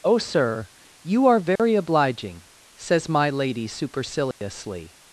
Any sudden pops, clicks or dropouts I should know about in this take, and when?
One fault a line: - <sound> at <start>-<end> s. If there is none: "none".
- dropout at 1.6-1.6 s
- dropout at 4.3-4.4 s